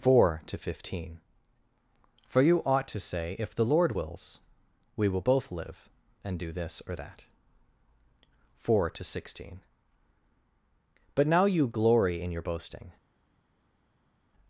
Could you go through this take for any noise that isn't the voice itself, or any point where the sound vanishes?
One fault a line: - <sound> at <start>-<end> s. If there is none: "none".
none